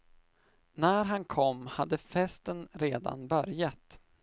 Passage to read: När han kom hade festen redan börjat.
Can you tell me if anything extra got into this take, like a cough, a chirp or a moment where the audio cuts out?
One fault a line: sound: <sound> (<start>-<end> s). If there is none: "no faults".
no faults